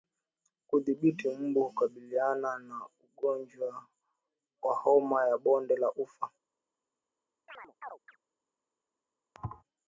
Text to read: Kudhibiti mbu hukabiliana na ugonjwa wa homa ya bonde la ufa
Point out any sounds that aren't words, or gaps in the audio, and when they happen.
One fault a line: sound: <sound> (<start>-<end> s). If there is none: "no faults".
sound: chirp (7.5-8.2 s)
sound: thud (9.3-9.6 s)